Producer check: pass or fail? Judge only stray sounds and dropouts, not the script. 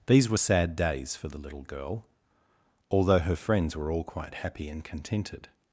pass